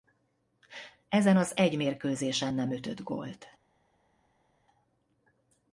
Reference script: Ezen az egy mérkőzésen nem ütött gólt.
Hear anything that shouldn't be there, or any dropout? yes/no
no